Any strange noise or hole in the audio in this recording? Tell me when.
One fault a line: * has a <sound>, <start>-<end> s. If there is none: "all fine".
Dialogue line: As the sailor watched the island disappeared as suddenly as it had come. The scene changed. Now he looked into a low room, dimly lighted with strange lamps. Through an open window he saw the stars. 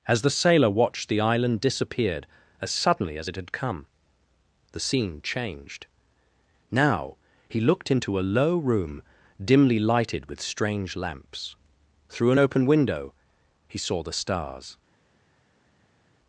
all fine